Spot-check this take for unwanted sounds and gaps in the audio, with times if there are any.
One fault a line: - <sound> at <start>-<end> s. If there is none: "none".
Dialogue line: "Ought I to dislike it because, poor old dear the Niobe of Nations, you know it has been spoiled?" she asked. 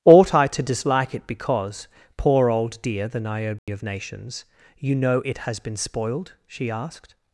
- dropout at 3.6-3.7 s